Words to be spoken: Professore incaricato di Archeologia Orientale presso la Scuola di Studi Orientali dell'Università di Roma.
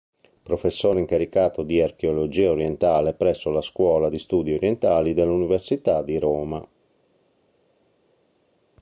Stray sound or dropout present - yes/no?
no